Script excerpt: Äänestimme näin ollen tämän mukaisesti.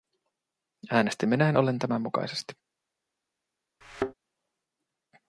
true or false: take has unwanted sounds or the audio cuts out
true